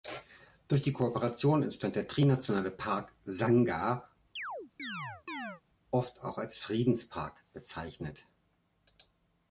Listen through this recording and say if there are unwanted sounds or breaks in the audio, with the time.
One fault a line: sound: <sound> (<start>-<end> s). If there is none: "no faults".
sound: chirp (4.4-5.6 s)